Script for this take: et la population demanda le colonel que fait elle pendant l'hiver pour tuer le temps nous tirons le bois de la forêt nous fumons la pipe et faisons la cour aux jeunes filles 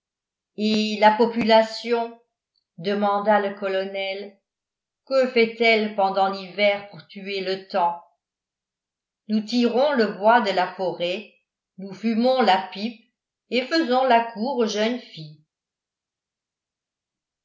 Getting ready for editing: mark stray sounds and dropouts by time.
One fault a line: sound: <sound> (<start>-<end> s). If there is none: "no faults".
no faults